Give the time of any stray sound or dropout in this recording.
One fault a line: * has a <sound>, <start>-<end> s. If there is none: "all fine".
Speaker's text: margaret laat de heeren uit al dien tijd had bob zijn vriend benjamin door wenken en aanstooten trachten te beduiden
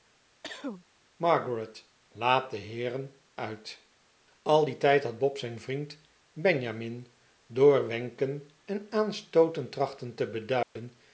* has a cough, 0.4-0.8 s
* has a dropout, 10.6-10.8 s